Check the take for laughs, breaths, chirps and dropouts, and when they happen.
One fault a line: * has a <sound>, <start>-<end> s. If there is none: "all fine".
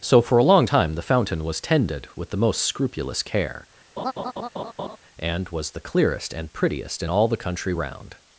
* has a laugh, 4.0-5.0 s